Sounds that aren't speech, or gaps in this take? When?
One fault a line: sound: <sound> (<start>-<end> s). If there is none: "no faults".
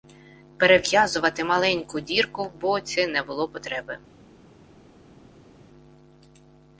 no faults